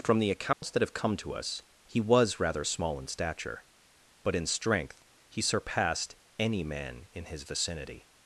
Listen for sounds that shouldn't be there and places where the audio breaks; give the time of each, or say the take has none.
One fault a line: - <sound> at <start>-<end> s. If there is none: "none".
- dropout at 0.5-0.6 s